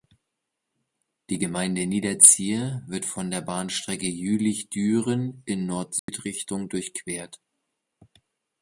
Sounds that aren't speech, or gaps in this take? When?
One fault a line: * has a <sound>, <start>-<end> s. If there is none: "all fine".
* has a dropout, 6.0-6.1 s